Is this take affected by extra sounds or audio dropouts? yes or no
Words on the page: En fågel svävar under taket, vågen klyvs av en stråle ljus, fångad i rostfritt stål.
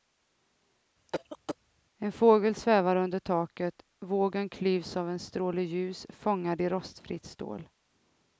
yes